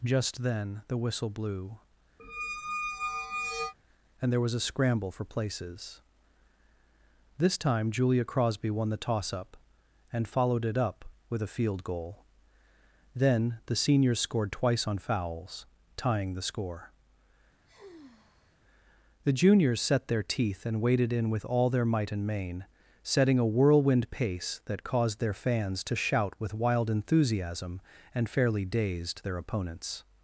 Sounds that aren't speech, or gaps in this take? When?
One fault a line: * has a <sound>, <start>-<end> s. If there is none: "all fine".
* has a squeak, 2.2-3.7 s
* has a sigh, 17.7-18.6 s